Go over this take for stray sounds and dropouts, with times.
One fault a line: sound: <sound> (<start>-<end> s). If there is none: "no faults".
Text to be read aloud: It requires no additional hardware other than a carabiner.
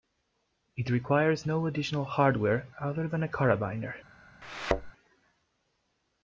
sound: thud (4.4-4.9 s)